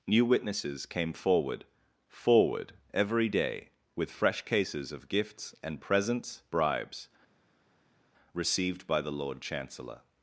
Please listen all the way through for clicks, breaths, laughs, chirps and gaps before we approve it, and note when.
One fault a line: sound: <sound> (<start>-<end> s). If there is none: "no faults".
no faults